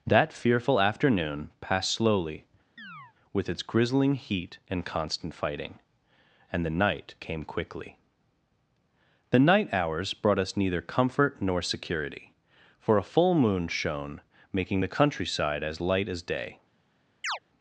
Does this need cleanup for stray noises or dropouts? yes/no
yes